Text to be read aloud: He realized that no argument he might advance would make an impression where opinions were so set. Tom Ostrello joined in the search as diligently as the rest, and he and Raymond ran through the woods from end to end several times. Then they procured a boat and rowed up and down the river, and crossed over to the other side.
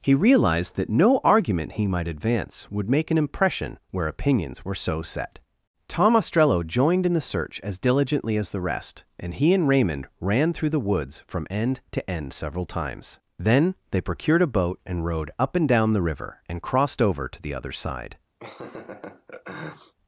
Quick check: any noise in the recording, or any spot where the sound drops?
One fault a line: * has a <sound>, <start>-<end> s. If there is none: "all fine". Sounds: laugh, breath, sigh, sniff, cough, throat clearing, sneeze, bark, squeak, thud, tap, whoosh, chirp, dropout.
* has a laugh, 18.4-19.9 s